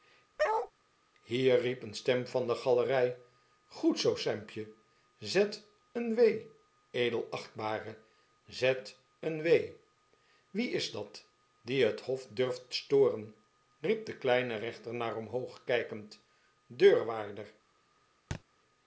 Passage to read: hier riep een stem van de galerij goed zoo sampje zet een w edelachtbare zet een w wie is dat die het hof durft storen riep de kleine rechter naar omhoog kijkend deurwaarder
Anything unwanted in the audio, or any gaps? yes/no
yes